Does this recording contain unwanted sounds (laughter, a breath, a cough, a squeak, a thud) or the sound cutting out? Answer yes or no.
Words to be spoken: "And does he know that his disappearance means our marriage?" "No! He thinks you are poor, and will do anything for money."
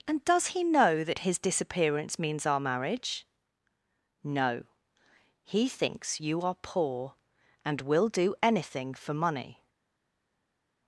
no